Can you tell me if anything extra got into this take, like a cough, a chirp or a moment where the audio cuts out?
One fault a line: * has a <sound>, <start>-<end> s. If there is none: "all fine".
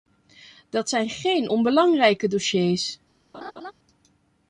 * has a laugh, 3.3-3.7 s